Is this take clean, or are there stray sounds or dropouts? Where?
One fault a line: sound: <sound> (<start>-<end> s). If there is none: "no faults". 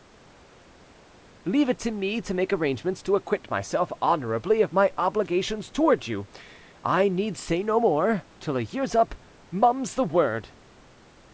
no faults